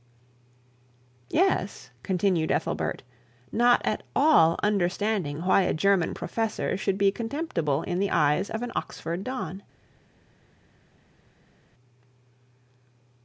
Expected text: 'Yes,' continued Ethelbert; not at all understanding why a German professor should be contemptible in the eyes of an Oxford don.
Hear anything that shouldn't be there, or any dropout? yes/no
no